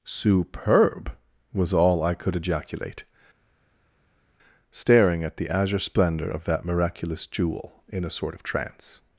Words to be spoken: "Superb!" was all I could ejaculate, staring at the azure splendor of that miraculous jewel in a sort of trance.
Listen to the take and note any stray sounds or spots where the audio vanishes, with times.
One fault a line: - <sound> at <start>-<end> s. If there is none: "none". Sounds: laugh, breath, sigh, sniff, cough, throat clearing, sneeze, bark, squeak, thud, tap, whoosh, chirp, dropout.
none